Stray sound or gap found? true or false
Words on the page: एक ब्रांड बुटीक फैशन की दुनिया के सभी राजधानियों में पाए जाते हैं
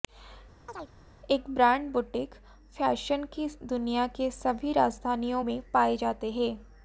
true